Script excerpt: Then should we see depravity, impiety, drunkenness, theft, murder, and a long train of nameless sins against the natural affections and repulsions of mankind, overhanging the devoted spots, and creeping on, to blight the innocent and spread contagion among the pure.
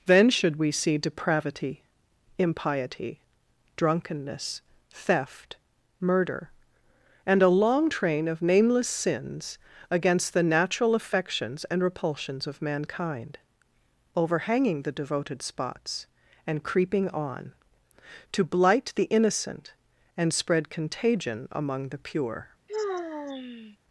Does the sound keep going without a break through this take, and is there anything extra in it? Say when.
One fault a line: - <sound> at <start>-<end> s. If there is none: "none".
- sigh at 22.7-23.8 s